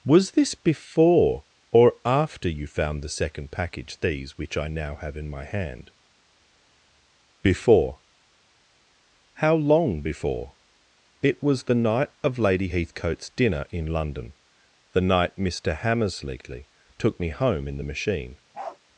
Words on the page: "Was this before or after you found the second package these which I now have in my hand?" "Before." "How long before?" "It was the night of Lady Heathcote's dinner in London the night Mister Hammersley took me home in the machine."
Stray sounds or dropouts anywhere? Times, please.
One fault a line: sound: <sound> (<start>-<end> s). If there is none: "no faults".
sound: bark (18.5-18.8 s)